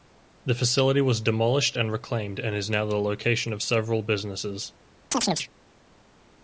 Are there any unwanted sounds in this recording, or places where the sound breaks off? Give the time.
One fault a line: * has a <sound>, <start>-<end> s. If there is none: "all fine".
* has a chirp, 5.1-5.5 s